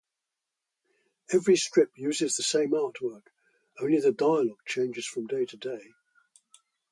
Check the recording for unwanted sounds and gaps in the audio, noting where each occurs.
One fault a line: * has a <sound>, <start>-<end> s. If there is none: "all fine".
all fine